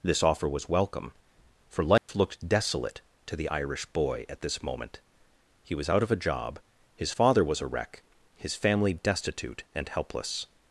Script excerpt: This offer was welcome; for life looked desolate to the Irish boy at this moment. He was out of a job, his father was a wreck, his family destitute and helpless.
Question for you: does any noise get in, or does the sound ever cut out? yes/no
yes